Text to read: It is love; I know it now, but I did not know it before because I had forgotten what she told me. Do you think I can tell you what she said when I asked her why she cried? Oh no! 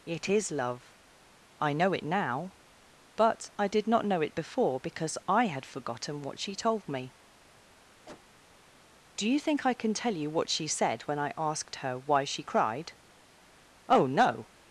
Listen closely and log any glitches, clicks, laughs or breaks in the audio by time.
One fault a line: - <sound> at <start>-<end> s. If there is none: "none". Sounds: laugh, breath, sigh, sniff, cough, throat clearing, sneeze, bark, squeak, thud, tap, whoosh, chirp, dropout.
- cough at 8.1-8.2 s